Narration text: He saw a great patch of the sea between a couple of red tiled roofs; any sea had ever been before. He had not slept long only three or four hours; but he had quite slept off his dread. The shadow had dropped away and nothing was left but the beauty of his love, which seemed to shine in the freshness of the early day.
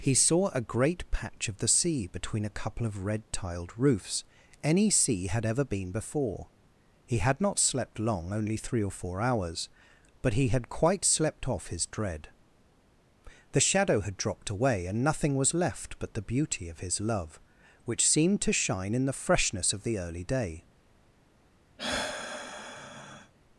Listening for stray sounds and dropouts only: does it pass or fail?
fail